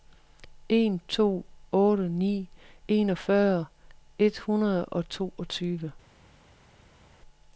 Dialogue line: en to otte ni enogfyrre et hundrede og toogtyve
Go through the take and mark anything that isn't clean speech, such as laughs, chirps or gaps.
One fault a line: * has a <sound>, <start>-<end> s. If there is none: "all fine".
all fine